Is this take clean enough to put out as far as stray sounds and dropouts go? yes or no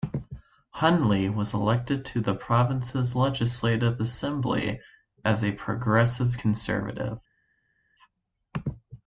yes